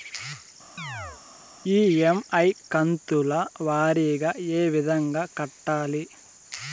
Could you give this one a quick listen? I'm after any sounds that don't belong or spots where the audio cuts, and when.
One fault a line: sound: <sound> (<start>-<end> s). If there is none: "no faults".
sound: chirp (0.8-1.2 s)